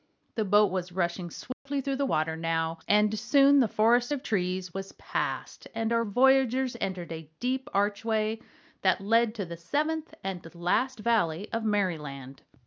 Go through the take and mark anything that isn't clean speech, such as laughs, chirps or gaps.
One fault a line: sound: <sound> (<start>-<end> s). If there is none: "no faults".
sound: dropout (1.5-1.7 s)